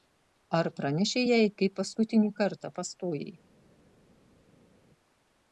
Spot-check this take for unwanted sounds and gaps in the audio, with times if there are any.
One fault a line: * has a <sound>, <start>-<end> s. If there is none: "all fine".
all fine